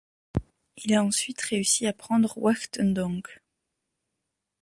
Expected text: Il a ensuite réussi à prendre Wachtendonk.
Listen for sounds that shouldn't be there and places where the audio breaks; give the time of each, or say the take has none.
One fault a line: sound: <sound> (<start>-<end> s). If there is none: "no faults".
no faults